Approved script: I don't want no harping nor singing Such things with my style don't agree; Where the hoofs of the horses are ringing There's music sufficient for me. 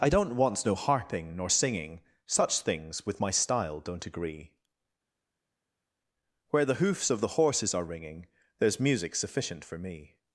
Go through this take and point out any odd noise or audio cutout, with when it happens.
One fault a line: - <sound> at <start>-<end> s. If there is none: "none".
none